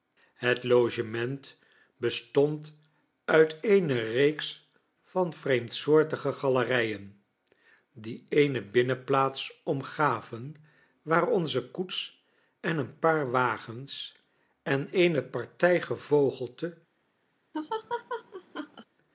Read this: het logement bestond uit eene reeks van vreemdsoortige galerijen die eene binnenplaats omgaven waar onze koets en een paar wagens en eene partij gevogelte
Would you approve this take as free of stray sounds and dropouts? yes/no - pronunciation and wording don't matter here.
no